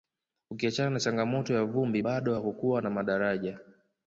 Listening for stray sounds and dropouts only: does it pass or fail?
pass